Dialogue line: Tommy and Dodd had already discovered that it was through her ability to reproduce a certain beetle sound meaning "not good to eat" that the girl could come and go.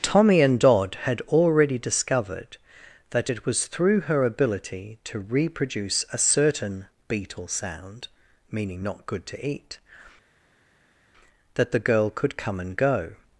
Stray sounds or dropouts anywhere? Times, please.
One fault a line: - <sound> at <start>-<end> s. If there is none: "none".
none